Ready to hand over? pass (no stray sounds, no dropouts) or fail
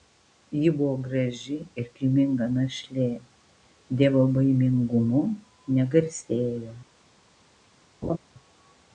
fail